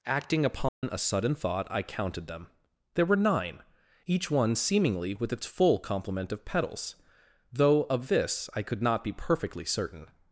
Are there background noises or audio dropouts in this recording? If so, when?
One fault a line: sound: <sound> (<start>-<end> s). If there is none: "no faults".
sound: dropout (0.7-0.8 s)